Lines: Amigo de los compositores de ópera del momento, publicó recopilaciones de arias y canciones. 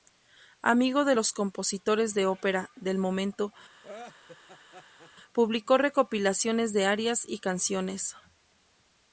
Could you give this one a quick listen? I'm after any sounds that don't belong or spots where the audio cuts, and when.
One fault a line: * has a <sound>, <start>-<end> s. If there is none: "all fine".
* has a laugh, 3.8-5.1 s